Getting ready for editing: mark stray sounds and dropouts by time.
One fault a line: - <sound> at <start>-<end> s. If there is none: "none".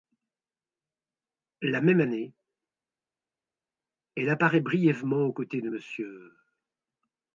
none